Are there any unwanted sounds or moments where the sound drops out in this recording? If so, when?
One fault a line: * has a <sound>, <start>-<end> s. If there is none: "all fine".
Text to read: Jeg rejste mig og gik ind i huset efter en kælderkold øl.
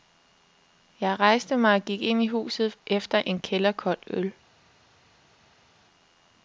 all fine